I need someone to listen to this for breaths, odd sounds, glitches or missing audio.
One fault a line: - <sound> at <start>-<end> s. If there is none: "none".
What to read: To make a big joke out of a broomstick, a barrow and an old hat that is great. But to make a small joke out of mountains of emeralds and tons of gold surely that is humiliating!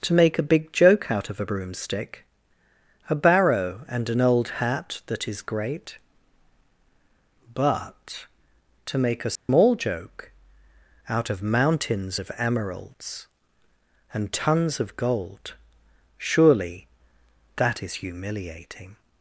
- dropout at 9.4-9.5 s